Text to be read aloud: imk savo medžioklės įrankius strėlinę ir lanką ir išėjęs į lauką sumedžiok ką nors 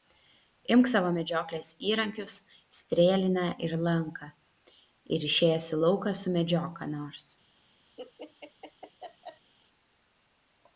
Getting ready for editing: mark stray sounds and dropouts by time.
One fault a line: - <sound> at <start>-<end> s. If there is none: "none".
- laugh at 8.0-9.5 s